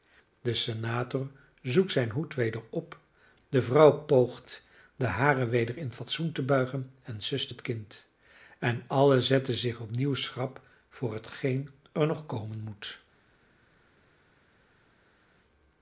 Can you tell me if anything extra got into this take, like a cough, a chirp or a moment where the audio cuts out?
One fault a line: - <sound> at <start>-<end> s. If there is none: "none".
none